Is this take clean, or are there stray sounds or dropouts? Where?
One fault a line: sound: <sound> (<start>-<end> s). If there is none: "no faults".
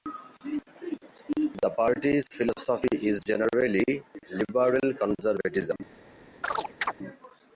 sound: chirp (6.4-6.9 s)